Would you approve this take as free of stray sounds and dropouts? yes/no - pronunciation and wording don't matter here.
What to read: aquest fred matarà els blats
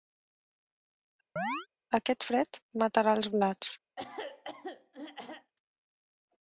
no